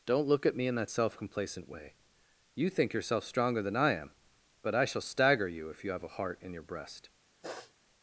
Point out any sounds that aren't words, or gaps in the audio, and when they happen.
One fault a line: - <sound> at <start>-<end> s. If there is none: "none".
- sniff at 7.4-7.7 s